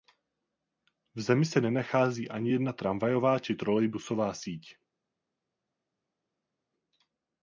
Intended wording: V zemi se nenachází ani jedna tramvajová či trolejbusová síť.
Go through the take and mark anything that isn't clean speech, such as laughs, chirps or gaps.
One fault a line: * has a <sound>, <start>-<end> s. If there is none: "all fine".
all fine